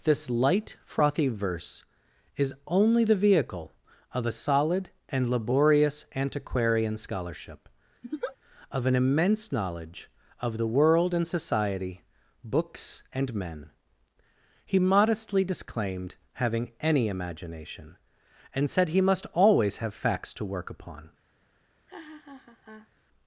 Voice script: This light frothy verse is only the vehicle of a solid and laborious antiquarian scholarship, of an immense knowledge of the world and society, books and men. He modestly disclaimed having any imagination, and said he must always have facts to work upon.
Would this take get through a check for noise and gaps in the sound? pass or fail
fail